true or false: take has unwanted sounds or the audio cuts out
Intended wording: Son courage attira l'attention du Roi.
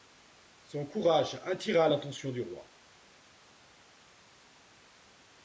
false